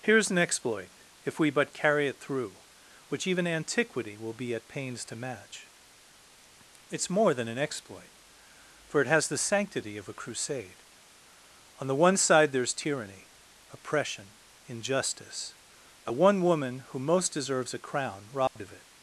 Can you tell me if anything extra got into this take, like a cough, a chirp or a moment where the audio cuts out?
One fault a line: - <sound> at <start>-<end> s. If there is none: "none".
- dropout at 18.5-18.6 s